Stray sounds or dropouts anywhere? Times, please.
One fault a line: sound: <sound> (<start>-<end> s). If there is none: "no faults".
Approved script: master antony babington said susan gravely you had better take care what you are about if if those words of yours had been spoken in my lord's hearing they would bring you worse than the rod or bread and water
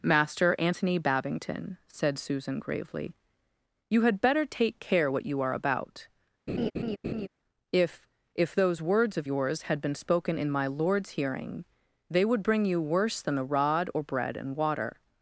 sound: laugh (6.5-7.3 s)